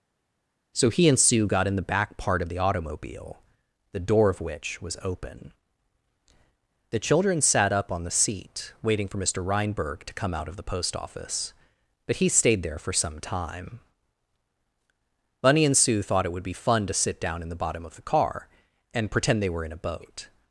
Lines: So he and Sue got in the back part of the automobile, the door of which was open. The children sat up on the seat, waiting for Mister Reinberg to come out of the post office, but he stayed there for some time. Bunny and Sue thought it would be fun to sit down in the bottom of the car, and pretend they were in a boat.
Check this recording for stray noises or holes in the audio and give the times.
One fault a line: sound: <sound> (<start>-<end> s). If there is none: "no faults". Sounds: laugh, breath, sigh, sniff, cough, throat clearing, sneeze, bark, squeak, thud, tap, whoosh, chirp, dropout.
no faults